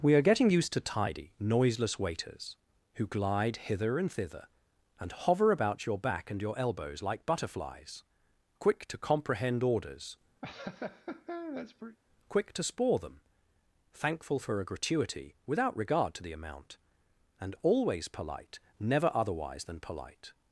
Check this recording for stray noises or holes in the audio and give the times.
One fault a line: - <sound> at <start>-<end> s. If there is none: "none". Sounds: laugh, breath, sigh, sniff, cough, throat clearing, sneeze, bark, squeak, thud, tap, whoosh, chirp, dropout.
- laugh at 10.4-12.0 s